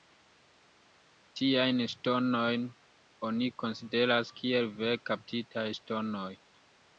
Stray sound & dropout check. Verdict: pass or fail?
pass